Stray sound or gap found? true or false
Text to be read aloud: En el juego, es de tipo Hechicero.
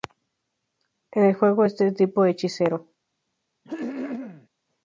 true